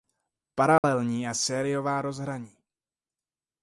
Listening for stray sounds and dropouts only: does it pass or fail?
fail